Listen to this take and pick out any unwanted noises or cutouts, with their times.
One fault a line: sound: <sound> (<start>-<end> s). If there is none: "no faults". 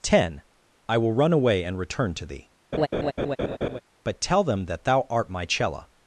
sound: laugh (2.7-3.8 s)